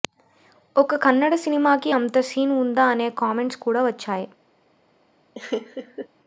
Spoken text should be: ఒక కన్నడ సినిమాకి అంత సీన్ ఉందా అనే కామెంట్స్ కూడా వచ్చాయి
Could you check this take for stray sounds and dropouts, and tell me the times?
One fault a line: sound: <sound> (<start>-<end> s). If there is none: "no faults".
sound: laugh (5.4-6.1 s)